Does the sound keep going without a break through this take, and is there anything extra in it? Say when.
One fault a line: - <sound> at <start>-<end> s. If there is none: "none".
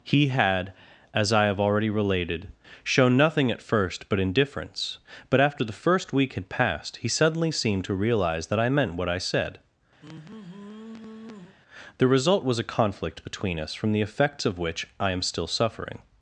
- sigh at 10.0-11.6 s